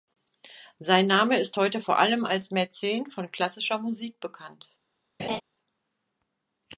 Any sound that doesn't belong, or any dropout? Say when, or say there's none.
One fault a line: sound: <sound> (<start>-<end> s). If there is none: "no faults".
sound: laugh (5.2-5.4 s)